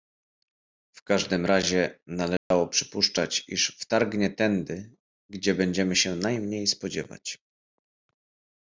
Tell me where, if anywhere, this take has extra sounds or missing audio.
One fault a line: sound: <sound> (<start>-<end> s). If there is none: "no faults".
sound: dropout (2.4-2.5 s)